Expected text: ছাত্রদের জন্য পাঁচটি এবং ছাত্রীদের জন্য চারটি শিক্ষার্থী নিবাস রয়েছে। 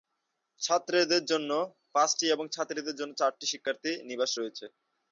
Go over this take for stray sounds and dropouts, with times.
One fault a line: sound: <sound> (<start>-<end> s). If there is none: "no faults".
no faults